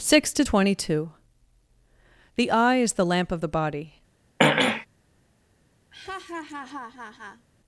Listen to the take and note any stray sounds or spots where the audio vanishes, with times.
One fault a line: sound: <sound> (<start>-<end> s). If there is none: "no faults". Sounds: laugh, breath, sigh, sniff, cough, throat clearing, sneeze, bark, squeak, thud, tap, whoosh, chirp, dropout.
sound: throat clearing (4.4-4.9 s)
sound: laugh (5.9-7.5 s)